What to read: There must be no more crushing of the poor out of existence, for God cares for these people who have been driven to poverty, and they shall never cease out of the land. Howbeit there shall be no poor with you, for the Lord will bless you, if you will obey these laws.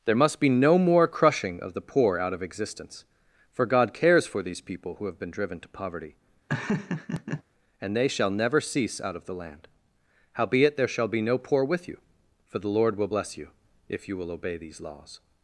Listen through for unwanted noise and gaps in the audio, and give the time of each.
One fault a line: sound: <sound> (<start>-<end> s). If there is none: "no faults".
sound: laugh (6.5-7.4 s)